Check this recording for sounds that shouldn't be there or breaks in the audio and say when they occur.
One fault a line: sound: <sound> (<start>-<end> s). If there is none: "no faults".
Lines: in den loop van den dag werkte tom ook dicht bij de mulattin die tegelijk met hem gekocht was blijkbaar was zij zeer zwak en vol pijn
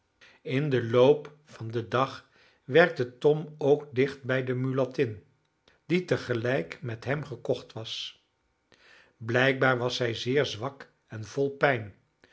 no faults